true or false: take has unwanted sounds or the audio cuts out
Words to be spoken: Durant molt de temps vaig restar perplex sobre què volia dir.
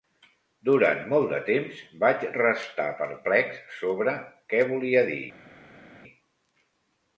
false